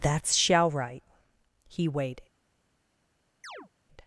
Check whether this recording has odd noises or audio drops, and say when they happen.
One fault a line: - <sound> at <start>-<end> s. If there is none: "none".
- chirp at 3.4-3.7 s